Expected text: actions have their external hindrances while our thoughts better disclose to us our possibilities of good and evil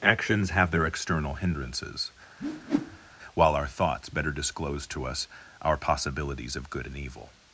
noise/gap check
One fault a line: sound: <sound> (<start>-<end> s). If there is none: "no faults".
sound: whoosh (2.4-3.2 s)